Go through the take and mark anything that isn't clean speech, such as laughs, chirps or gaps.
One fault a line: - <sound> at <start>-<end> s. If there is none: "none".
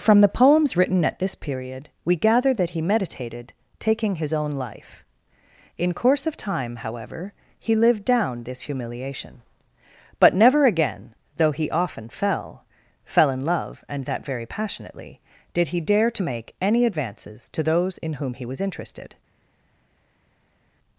none